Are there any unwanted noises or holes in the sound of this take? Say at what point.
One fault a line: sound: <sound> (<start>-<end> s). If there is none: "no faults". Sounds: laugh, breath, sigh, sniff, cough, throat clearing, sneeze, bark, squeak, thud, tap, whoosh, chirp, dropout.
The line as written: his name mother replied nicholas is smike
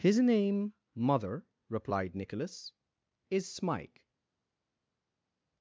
no faults